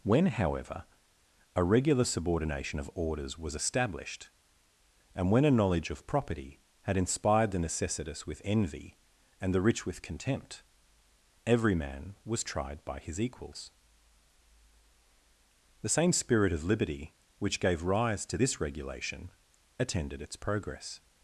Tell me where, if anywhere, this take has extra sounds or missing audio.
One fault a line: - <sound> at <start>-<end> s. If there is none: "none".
none